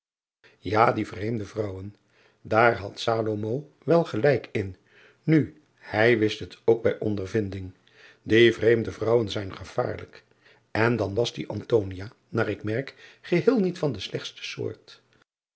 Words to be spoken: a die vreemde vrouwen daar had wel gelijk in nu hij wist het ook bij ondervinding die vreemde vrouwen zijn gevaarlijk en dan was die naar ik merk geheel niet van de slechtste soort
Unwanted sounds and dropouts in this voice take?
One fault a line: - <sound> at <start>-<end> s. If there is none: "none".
none